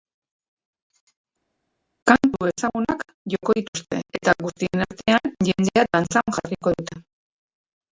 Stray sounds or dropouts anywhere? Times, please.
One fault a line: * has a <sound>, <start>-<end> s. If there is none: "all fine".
all fine